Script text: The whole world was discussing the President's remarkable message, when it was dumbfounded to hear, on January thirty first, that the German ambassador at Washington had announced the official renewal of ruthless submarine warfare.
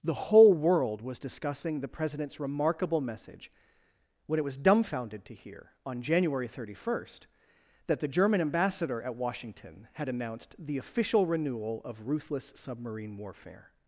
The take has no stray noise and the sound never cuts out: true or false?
true